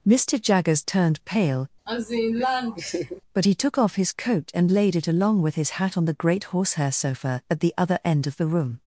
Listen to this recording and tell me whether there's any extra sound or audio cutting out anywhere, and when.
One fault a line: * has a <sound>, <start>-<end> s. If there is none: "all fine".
* has a laugh, 1.9-3.2 s